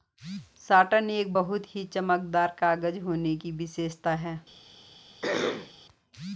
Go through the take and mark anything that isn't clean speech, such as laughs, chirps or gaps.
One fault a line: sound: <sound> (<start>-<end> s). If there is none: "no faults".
sound: throat clearing (5.2-5.7 s)